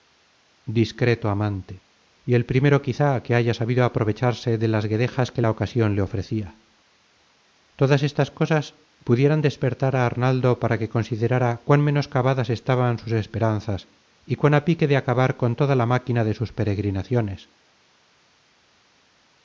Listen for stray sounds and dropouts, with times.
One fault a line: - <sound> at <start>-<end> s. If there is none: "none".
none